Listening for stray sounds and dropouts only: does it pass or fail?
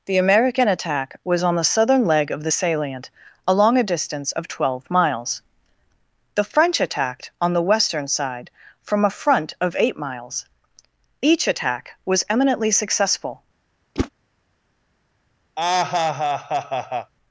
fail